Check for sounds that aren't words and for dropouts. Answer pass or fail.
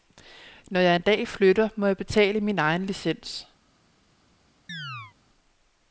fail